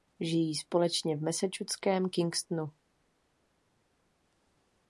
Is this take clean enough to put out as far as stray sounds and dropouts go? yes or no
yes